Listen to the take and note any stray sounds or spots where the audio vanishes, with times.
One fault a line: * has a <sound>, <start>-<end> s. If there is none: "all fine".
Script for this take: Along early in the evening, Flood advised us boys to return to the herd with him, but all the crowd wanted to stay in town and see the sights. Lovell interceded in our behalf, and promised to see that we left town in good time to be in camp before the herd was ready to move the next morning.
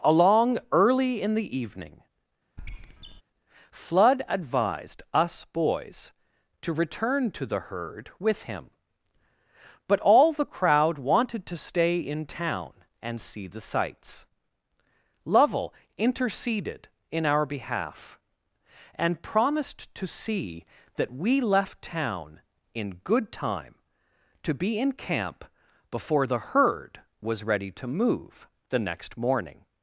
* has a squeak, 2.6-3.2 s